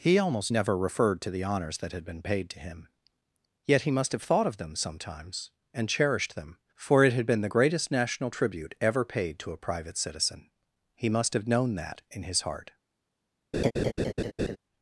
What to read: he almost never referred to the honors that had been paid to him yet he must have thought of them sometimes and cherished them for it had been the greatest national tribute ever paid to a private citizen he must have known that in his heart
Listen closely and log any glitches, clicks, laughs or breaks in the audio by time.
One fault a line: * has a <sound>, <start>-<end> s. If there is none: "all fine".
* has a laugh, 13.5-14.6 s